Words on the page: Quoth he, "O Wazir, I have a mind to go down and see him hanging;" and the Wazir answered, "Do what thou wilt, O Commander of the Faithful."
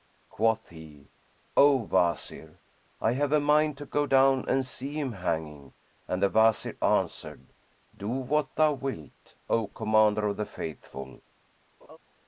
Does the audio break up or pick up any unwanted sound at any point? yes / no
yes